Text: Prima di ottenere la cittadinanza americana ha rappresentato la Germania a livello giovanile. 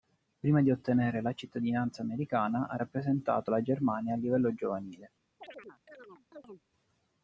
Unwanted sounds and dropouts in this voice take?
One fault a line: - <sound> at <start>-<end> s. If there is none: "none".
- chirp at 5.4-6.6 s